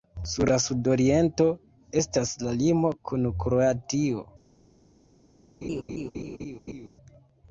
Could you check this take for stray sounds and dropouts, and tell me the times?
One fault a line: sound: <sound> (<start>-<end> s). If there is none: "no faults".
sound: laugh (5.6-6.9 s)